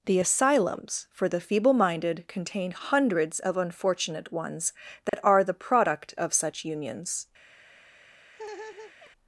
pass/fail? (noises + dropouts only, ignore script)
fail